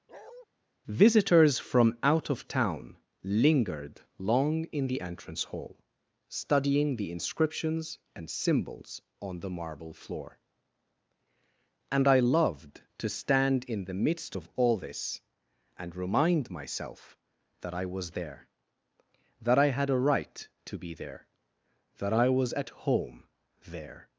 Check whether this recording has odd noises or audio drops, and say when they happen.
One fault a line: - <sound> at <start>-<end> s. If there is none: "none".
- bark at 0.1-0.5 s